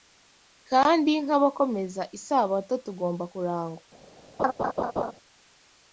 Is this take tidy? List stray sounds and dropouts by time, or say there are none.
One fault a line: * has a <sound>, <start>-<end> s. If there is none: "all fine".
* has a laugh, 4.4-5.1 s